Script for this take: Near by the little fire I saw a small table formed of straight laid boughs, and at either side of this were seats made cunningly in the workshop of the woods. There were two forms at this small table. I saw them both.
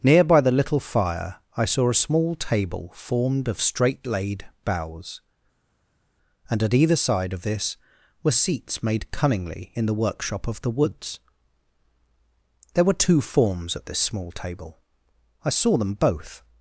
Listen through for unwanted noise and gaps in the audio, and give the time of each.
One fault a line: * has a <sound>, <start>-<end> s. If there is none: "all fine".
all fine